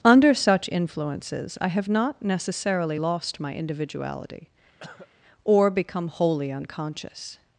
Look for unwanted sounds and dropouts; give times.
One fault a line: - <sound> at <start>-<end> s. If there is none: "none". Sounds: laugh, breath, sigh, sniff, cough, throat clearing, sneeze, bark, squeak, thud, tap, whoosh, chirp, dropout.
- cough at 4.8-5.1 s